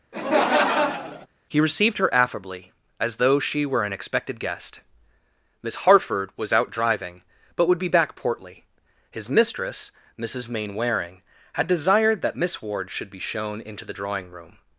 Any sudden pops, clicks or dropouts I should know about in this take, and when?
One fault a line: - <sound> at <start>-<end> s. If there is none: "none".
- laugh at 0.1-1.3 s